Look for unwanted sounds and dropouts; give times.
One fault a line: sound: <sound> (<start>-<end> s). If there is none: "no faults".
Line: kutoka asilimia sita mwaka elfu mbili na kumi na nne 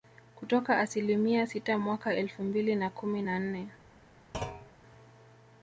sound: thud (4.3-4.7 s)